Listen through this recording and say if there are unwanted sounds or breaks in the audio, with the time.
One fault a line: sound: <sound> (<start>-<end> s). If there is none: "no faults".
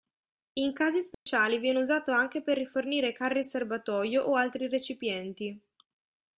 sound: dropout (1.1-1.3 s)